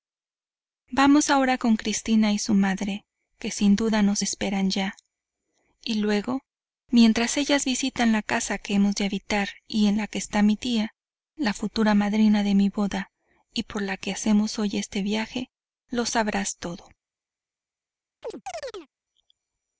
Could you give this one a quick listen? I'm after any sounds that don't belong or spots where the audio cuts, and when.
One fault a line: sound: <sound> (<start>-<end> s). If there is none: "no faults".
sound: chirp (18.2-18.9 s)